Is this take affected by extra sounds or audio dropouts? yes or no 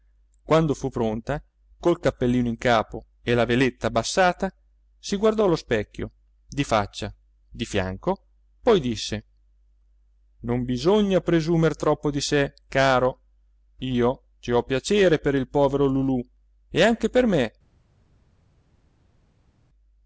no